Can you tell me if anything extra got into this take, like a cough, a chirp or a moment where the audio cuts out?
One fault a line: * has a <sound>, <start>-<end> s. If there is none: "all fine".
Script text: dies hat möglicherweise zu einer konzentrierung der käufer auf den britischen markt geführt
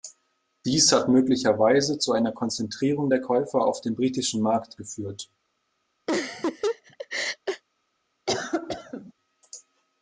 * has a laugh, 6.1-7.6 s
* has a cough, 8.3-9.1 s